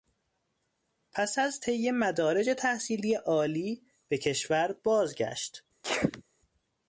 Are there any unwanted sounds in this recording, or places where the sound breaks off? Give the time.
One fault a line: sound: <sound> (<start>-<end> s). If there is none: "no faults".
sound: sneeze (5.8-6.2 s)